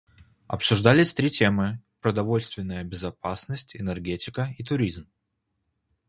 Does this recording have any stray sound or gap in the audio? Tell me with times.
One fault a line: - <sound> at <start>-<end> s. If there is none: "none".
none